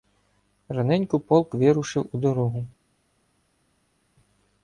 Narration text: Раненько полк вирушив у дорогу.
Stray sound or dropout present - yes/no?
no